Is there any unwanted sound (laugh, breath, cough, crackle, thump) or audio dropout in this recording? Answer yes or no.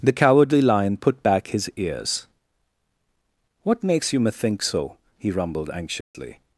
yes